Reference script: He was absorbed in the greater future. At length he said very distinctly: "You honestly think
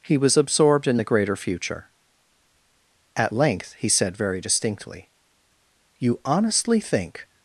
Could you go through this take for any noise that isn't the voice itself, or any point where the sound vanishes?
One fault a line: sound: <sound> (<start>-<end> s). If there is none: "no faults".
no faults